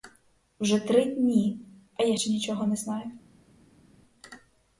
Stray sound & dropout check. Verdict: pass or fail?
pass